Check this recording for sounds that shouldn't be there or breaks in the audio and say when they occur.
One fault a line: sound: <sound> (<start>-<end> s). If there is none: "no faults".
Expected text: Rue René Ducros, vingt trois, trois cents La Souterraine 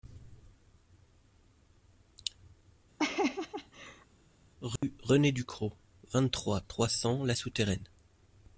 sound: laugh (3.0-4.1 s)
sound: dropout (4.8-4.8 s)